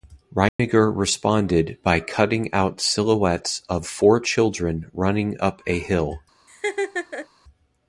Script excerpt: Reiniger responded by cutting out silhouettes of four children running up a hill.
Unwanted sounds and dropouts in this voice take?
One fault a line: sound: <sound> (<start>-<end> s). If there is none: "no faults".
sound: dropout (0.5-0.6 s)
sound: laugh (6.5-7.3 s)